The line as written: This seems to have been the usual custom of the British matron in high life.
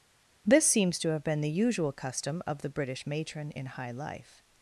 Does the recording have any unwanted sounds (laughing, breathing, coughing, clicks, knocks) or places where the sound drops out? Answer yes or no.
no